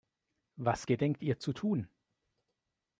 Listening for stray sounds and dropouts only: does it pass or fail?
pass